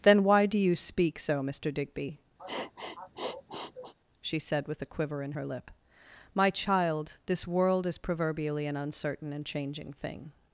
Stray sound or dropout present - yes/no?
yes